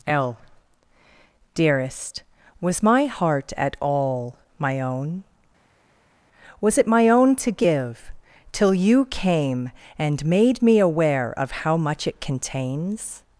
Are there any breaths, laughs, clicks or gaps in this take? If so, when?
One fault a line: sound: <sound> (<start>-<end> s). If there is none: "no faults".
no faults